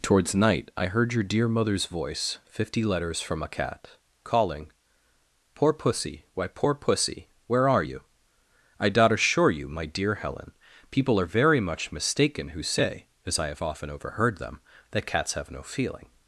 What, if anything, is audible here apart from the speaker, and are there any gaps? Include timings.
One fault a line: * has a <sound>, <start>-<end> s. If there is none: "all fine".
all fine